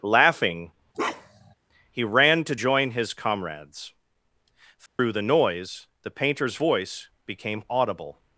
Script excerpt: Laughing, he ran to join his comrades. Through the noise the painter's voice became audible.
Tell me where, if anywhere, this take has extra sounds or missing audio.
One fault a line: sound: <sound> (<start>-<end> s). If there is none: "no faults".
sound: bark (0.9-1.5 s)
sound: dropout (4.9-5.0 s)